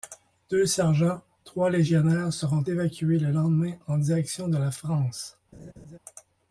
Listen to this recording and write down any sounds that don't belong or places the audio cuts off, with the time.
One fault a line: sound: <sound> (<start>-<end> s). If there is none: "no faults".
sound: laugh (5.5-6.0 s)